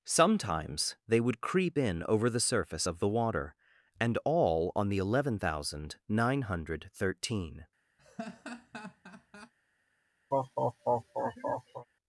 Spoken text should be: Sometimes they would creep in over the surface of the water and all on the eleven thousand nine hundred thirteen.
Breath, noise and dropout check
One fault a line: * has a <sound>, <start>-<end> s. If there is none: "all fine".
* has a laugh, 8.0-9.5 s
* has a laugh, 10.3-11.9 s